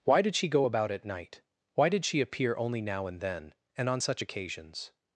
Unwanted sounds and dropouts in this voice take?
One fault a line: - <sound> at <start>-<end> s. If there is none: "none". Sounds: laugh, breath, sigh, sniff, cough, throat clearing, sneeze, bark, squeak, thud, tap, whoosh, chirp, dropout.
none